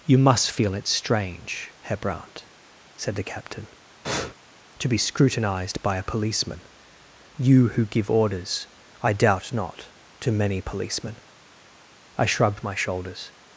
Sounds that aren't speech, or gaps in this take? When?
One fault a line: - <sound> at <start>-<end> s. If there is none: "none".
- breath at 4.0-4.3 s